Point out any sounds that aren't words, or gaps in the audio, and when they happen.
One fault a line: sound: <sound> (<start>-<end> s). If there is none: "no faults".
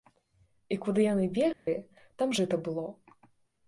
sound: dropout (1.5-1.7 s)